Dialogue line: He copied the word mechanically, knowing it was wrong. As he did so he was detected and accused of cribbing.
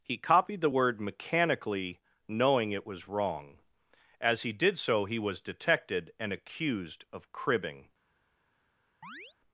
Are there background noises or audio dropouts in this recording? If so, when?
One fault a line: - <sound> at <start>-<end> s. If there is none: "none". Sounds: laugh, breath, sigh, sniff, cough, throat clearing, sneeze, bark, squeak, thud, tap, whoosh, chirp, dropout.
- chirp at 9.0-9.4 s